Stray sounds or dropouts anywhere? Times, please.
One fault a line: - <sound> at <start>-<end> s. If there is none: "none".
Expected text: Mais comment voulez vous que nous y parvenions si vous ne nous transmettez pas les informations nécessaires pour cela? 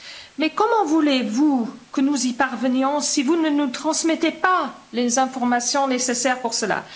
none